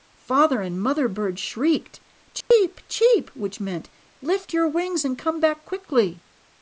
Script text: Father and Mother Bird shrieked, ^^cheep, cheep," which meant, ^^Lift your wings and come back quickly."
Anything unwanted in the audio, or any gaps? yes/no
yes